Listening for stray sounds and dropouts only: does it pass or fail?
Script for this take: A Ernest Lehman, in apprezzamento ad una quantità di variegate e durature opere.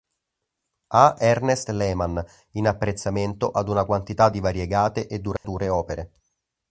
fail